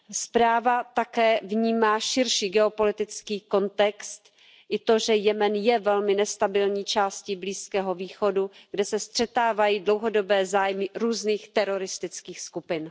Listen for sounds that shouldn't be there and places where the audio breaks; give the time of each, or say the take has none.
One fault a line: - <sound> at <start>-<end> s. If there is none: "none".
none